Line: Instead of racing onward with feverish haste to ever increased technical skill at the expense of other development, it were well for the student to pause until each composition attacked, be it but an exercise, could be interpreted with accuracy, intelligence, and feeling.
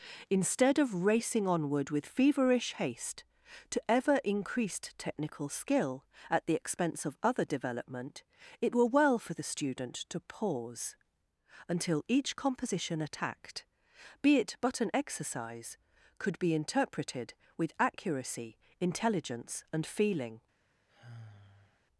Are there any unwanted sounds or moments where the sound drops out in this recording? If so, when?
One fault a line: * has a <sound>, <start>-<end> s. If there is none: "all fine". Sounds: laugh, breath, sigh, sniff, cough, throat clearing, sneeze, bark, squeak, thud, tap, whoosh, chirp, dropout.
* has a sigh, 20.9-21.8 s